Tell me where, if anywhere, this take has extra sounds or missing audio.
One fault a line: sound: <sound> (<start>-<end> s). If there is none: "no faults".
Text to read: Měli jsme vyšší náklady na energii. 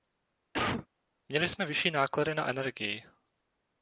sound: cough (0.5-0.9 s)